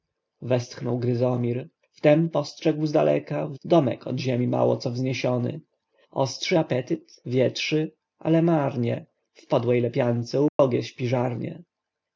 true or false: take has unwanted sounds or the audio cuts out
true